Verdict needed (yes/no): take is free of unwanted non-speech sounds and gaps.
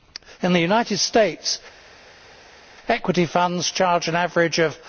yes